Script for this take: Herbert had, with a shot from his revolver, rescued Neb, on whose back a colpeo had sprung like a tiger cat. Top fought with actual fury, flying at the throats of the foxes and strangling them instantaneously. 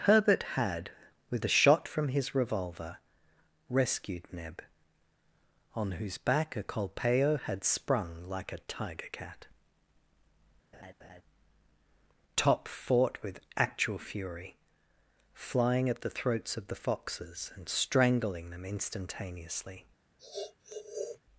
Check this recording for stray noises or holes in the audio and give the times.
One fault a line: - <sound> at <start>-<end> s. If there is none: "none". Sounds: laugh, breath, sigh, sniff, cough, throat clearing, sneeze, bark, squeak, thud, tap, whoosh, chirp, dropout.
- laugh at 10.7-11.2 s
- sniff at 20.2-21.2 s